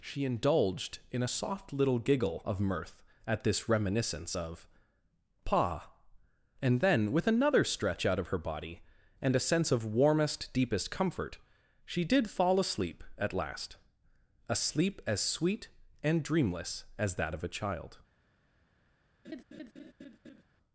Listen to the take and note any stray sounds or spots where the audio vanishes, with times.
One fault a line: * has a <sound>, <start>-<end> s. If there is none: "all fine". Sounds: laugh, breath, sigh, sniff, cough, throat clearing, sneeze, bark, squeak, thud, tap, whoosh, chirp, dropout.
* has a laugh, 19.2-20.4 s